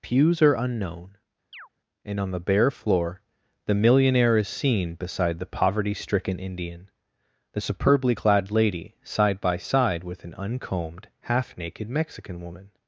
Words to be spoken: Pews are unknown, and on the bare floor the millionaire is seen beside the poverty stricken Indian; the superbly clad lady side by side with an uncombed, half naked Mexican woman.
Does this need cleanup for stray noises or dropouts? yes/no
yes